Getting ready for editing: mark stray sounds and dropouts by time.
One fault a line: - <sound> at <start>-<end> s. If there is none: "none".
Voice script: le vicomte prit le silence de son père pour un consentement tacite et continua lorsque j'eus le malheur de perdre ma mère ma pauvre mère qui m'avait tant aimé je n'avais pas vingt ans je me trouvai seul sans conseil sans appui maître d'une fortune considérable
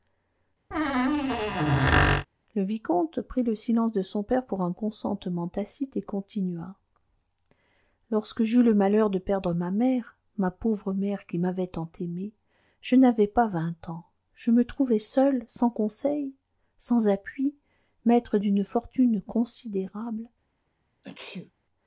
- squeak at 0.7-2.3 s
- sneeze at 21.0-21.5 s